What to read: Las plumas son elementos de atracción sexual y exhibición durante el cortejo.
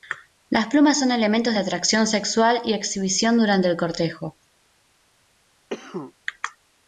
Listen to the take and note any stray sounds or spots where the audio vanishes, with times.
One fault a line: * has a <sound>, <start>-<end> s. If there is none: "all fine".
* has a cough, 5.7-6.1 s